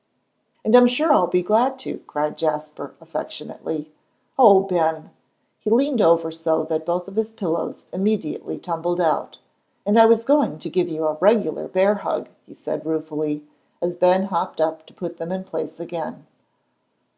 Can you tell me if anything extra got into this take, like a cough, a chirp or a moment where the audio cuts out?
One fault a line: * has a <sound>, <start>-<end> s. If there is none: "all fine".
all fine